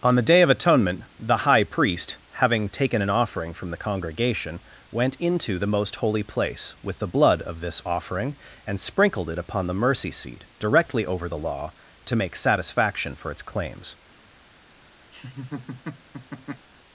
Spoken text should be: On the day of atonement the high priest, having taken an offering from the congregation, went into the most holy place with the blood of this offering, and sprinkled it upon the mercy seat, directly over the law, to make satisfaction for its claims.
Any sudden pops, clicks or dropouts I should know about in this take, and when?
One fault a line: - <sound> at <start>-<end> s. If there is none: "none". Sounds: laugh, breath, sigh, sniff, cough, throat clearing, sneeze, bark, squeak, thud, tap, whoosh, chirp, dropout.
- laugh at 15.1-16.7 s